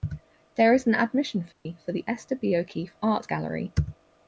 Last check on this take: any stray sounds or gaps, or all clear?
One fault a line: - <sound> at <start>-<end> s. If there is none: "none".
- dropout at 1.5-1.7 s